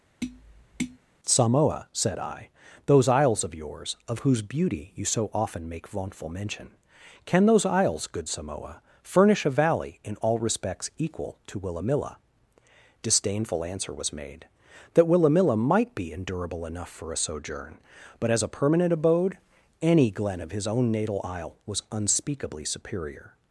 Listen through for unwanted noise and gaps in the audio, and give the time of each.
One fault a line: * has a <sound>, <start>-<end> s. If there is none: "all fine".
* has a tap, 0.2-1.0 s